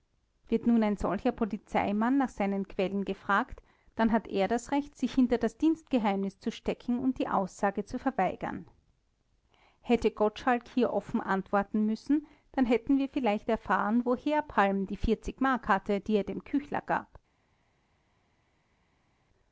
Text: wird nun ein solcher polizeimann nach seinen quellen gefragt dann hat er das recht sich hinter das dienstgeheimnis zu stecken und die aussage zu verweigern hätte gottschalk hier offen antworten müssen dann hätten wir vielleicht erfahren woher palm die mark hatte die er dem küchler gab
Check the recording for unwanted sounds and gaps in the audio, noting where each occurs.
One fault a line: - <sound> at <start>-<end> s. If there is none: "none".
none